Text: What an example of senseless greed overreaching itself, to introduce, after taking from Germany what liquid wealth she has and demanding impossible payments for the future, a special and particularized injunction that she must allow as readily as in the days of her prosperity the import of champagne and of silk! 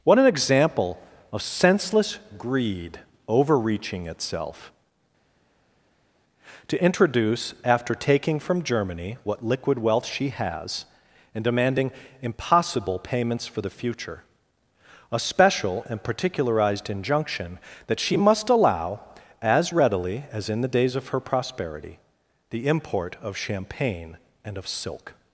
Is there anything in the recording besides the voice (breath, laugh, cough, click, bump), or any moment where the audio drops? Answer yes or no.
no